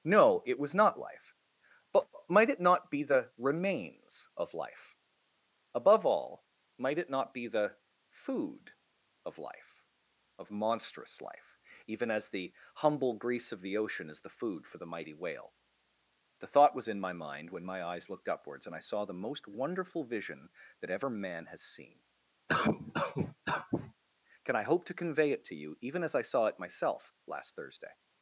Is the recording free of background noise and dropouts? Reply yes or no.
no